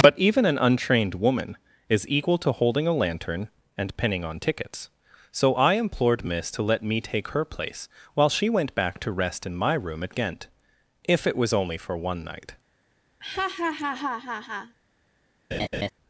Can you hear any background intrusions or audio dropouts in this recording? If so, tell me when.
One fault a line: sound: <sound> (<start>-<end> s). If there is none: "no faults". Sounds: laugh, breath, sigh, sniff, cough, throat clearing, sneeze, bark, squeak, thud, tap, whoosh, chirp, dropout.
sound: laugh (13.2-14.8 s)
sound: laugh (15.5-15.9 s)